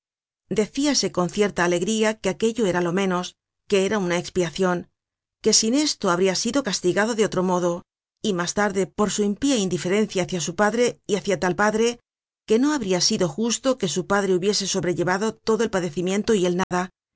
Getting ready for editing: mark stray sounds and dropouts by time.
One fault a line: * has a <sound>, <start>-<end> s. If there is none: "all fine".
* has a dropout, 16.6-16.7 s